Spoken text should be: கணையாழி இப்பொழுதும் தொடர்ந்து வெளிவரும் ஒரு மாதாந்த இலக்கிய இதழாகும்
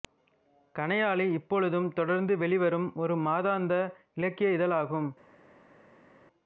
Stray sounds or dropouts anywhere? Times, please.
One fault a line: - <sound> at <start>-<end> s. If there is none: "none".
none